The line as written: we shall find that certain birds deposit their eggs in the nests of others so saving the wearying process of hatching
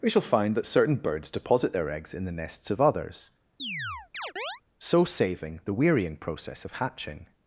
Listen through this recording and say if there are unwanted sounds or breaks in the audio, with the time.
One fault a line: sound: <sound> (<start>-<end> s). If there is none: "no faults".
sound: chirp (3.6-4.6 s)